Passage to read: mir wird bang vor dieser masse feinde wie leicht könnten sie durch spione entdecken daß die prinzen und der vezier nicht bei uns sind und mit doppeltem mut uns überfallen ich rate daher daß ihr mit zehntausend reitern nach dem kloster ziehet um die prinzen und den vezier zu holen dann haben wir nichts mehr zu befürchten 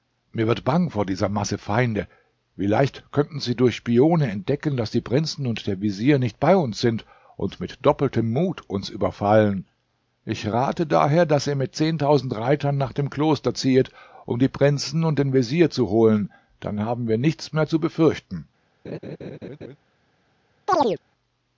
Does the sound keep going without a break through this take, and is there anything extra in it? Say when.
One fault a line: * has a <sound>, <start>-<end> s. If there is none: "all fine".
* has a laugh, 18.8-19.8 s
* has a chirp, 20.7-21.0 s